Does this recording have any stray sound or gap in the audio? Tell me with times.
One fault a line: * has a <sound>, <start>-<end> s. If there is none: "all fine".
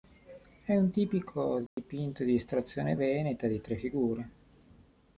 * has a dropout, 1.7-1.8 s